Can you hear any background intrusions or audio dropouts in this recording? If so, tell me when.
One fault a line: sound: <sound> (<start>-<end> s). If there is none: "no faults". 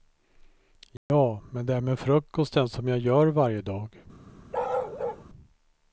sound: dropout (1.0-1.1 s)
sound: bark (4.5-5.2 s)